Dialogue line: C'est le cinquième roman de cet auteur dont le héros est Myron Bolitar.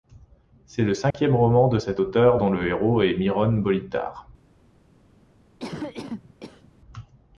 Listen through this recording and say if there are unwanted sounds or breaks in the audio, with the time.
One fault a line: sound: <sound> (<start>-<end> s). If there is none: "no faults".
sound: dropout (1.1-1.1 s)
sound: cough (5.6-6.7 s)